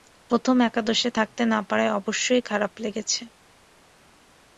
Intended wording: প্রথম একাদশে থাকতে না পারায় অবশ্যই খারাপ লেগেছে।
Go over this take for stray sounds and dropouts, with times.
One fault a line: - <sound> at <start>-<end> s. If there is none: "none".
none